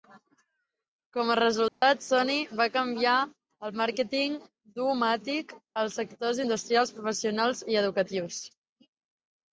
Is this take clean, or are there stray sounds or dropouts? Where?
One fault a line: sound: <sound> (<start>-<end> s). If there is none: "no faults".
sound: dropout (1.7-1.8 s)